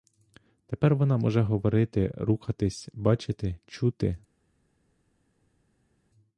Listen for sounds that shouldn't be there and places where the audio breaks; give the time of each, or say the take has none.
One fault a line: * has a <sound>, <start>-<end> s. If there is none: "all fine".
all fine